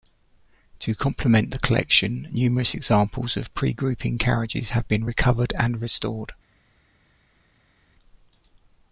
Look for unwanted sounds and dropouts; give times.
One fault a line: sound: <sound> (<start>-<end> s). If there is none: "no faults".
no faults